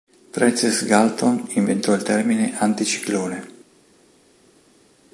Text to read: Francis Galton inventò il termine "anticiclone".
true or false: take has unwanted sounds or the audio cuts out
false